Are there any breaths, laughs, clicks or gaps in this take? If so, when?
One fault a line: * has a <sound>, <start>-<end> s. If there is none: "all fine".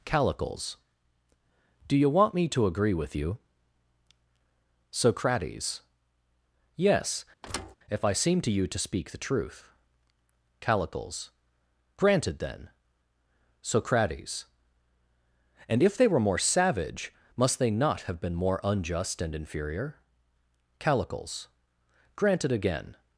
* has a thud, 7.4-7.8 s